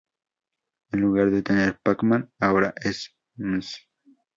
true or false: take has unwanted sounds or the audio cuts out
false